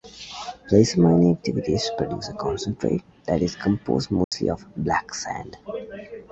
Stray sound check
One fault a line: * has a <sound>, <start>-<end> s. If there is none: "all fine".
* has a dropout, 4.2-4.3 s